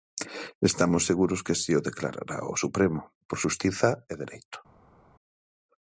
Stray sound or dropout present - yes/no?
no